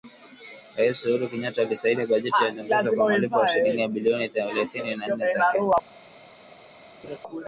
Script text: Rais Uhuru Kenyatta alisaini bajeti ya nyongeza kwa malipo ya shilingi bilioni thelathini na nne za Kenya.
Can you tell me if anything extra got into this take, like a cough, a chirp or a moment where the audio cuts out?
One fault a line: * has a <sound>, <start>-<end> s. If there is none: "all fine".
* has a laugh, 7.0-7.2 s